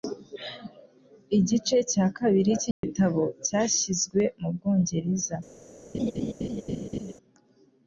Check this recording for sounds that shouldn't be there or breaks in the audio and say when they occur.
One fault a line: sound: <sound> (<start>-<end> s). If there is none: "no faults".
sound: dropout (2.7-2.8 s)
sound: laugh (5.9-7.1 s)